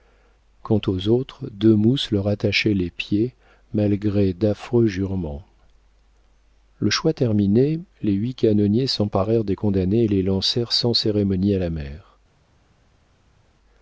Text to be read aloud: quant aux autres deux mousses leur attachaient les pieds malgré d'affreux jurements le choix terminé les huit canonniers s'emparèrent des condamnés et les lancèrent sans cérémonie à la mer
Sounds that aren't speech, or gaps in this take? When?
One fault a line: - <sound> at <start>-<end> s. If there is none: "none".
none